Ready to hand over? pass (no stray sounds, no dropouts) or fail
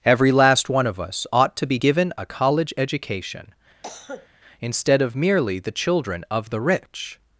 fail